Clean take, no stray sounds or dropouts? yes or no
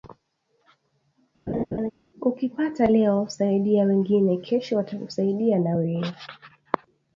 no